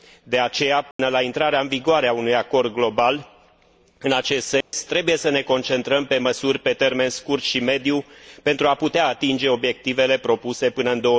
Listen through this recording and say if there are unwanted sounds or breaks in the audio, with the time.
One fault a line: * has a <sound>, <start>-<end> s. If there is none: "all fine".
* has a dropout, 0.9-1.0 s
* has a dropout, 4.6-4.7 s